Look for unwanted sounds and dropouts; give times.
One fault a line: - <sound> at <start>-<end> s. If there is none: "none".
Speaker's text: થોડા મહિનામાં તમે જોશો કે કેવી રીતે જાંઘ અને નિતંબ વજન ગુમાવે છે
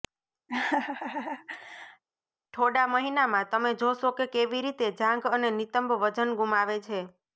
- laugh at 0.5-2.0 s